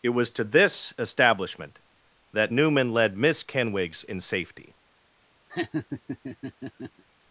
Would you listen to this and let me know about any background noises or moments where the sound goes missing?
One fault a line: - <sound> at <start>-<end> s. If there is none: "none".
- laugh at 5.5-7.0 s